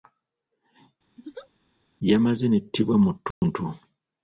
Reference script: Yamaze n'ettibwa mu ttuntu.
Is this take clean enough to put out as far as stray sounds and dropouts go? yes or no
no